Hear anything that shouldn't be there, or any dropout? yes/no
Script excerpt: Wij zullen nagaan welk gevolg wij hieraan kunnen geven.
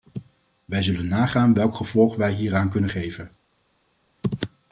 no